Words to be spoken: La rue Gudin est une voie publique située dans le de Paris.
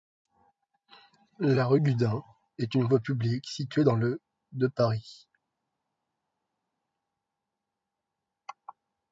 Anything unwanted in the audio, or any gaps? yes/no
no